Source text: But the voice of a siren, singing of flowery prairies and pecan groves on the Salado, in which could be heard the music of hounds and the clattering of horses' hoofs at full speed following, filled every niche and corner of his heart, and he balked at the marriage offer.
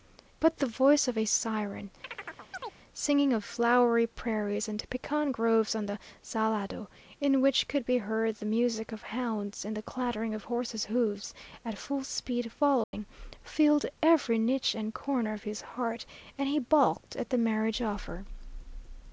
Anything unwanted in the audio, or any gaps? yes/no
yes